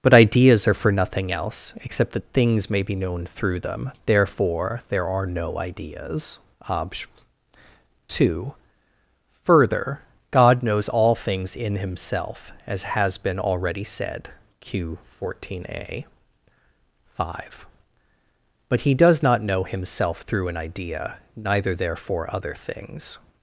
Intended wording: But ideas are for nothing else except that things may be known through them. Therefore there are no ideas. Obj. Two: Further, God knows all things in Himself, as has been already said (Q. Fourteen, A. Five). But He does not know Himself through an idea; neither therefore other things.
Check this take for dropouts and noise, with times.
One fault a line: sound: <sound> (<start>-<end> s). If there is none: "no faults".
no faults